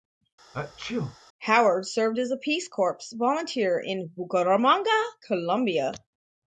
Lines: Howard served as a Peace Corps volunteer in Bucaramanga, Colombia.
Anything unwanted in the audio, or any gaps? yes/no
yes